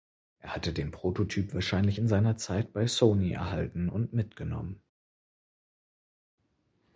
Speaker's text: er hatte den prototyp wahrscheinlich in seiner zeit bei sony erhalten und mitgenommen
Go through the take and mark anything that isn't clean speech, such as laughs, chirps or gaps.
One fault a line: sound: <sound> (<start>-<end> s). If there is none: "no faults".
no faults